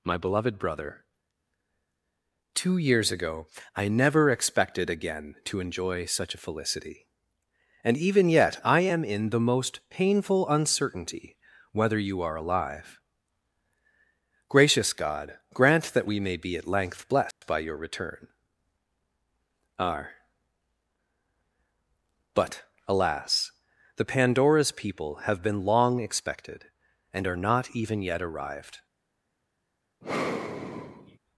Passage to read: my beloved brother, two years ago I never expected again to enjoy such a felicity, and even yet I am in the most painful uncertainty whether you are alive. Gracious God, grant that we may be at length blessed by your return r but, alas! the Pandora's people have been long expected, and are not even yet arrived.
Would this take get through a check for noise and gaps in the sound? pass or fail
fail